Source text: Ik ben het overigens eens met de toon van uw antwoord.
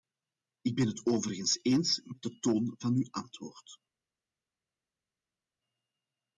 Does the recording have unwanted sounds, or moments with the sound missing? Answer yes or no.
no